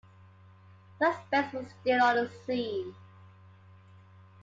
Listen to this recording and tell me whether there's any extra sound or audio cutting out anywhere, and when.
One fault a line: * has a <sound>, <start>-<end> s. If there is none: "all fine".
all fine